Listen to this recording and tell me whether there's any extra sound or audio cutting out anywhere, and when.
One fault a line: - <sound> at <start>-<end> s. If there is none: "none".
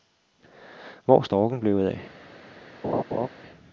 - laugh at 2.8-3.3 s